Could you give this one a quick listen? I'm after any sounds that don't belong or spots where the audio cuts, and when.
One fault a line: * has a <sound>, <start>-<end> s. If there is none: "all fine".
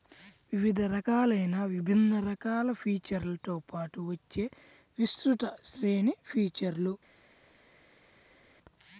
all fine